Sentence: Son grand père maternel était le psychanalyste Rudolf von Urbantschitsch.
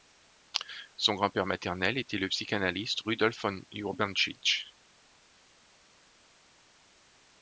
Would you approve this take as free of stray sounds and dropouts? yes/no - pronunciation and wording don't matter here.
yes